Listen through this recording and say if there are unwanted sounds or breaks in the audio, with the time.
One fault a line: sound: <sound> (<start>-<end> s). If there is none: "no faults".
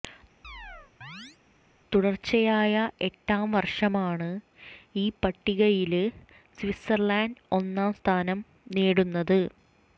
sound: chirp (0.4-1.4 s)